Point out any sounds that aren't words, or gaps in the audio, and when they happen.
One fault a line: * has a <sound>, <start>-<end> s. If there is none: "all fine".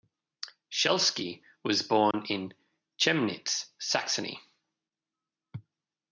* has a dropout, 2.1-2.1 s